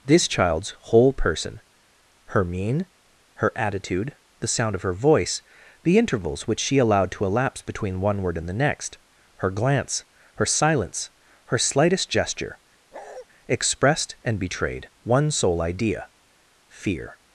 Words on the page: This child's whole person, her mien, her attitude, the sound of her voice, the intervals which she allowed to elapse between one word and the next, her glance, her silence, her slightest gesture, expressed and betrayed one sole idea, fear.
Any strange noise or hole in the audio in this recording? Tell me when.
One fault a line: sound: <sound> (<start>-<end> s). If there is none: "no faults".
sound: bark (12.9-13.3 s)